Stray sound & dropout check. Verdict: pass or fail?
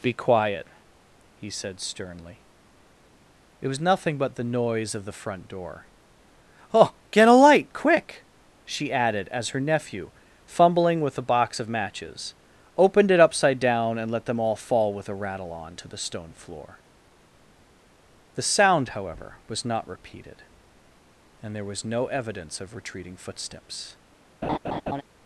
fail